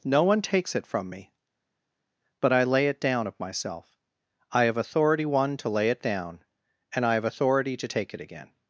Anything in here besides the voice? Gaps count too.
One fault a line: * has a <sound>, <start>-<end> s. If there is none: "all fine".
all fine